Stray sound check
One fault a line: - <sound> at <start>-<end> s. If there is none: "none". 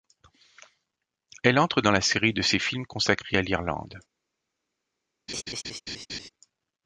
- laugh at 5.3-6.3 s